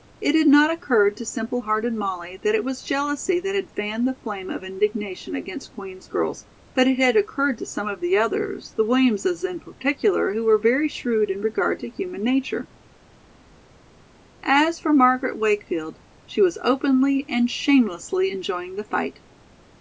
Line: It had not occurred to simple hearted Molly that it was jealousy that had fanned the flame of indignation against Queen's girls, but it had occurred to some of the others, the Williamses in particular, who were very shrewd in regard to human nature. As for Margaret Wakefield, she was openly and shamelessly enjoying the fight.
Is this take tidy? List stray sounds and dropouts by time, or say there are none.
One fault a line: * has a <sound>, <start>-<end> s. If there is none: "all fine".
all fine